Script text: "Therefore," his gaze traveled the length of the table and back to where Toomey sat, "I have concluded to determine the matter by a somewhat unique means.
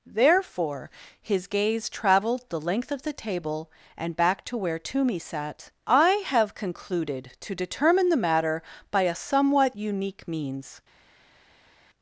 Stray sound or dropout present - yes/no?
no